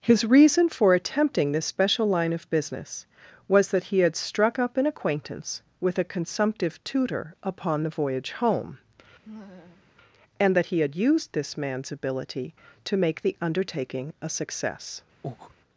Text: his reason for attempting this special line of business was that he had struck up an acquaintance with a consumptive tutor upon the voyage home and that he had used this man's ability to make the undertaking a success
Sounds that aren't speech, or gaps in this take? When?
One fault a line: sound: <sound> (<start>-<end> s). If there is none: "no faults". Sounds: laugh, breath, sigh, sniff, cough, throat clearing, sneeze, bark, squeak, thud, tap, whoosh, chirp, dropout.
sound: laugh (9.2-9.9 s)
sound: breath (15.2-15.5 s)